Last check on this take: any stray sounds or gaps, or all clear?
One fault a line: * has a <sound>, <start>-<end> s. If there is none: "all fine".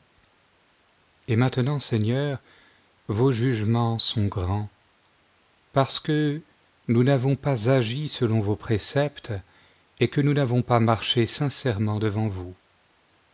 all fine